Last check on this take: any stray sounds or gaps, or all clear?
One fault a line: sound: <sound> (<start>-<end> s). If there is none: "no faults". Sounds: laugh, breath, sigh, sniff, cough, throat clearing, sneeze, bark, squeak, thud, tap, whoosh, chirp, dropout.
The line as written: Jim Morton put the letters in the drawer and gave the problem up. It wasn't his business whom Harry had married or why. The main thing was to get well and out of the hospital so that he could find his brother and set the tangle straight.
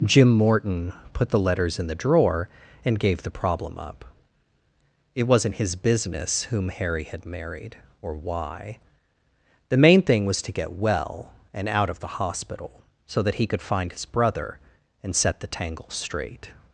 no faults